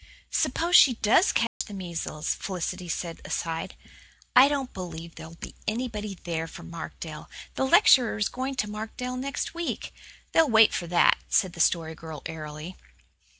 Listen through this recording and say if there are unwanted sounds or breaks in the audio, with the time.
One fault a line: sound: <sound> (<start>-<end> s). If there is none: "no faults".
sound: dropout (1.5-1.6 s)